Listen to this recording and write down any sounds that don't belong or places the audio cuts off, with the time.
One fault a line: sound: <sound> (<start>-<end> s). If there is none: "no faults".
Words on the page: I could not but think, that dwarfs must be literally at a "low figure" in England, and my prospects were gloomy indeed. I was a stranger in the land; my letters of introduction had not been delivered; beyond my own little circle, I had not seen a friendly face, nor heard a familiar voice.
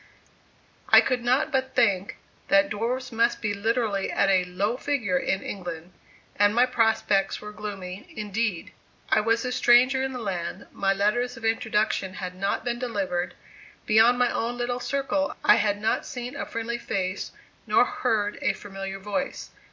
no faults